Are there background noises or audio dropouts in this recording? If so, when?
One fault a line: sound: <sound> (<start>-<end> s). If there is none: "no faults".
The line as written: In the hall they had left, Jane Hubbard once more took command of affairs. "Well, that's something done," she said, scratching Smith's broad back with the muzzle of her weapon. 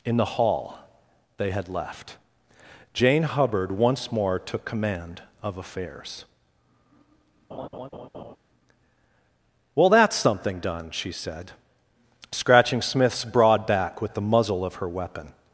sound: laugh (7.5-8.4 s)